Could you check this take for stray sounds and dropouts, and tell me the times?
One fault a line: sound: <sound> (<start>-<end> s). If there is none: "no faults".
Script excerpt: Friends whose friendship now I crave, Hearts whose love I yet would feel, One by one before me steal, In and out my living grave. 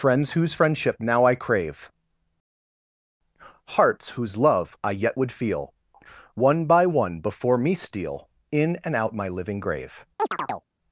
sound: chirp (10.2-10.7 s)